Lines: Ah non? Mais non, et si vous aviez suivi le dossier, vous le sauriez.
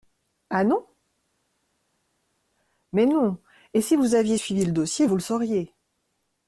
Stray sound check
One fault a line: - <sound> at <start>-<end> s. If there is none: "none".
none